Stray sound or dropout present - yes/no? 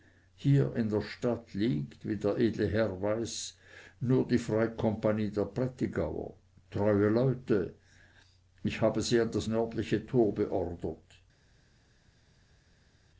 no